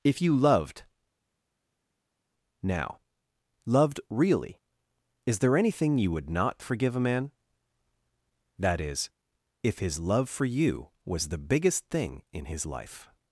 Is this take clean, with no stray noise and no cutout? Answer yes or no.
yes